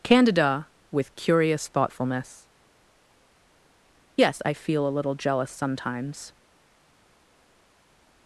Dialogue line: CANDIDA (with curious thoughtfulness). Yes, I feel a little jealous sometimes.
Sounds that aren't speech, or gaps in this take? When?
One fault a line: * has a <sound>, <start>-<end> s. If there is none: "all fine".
all fine